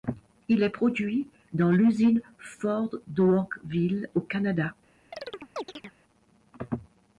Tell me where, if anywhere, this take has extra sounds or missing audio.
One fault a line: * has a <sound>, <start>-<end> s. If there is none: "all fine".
* has a chirp, 5.1-5.9 s